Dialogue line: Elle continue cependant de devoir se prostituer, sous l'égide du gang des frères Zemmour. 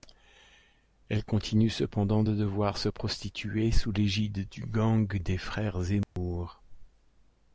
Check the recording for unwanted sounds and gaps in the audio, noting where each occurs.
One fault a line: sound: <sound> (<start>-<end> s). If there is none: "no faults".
sound: dropout (6.0-6.2 s)